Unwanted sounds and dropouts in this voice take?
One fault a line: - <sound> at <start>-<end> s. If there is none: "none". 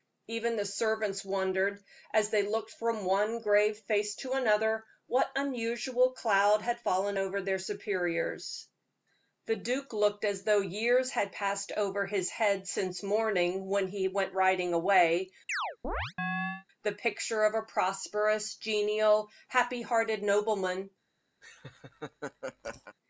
- chirp at 15.5-16.7 s
- laugh at 21.4-23.0 s